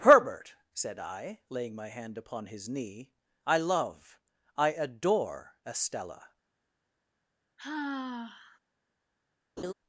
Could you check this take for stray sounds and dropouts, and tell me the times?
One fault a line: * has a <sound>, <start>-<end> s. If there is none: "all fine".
* has a sigh, 7.6-8.6 s
* has a laugh, 9.6-9.7 s